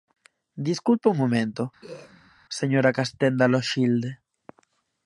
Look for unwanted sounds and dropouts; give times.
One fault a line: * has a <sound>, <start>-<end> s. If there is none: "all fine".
* has a throat clearing, 1.8-2.3 s